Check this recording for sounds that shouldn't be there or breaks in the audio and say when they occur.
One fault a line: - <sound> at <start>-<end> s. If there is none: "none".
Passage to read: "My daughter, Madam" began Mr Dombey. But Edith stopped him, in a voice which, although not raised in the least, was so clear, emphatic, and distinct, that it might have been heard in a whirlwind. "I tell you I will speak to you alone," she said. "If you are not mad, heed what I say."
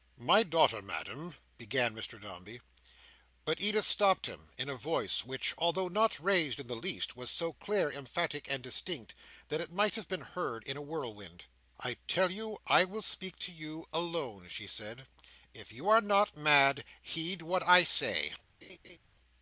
- laugh at 18.6-19.0 s